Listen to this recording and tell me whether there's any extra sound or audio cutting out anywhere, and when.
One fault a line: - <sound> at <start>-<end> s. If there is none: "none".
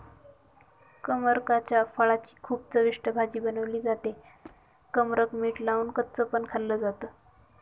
- squeak at 4.4-4.7 s